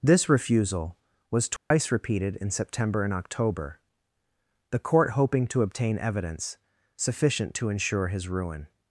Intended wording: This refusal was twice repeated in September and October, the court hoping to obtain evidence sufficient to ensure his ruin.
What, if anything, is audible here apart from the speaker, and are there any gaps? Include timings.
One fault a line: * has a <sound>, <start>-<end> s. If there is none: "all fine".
* has a dropout, 1.6-1.7 s